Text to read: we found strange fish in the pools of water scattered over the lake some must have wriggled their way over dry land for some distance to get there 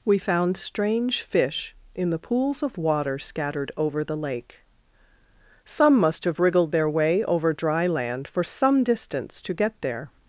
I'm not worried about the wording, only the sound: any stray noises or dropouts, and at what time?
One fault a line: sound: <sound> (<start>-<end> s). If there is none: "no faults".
no faults